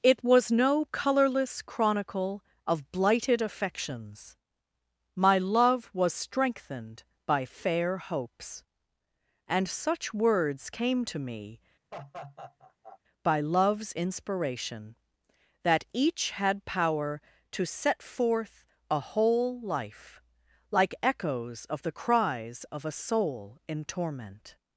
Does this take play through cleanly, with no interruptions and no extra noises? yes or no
no